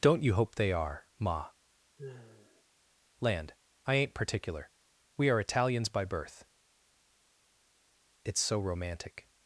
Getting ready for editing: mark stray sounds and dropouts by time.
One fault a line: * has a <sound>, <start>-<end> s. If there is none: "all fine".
* has a sigh, 2.0-2.6 s